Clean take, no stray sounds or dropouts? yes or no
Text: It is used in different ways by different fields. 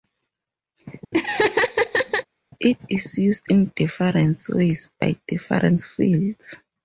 no